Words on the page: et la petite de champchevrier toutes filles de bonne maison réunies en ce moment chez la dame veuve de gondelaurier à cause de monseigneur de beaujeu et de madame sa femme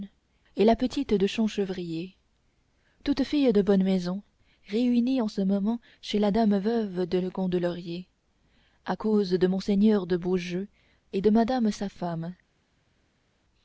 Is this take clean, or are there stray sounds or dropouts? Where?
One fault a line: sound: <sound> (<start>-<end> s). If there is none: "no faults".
no faults